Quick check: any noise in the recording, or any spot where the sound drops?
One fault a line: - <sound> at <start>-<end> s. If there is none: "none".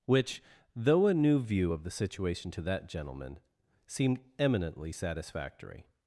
none